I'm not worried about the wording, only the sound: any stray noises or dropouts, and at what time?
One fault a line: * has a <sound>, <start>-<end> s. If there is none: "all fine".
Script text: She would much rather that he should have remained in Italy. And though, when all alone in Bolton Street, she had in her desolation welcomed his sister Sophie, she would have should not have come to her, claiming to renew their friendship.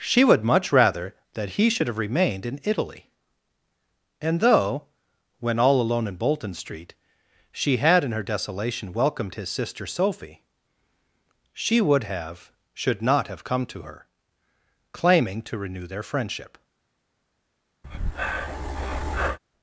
* has a breath, 17.8-19.4 s